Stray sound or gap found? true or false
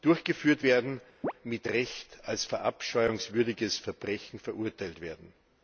true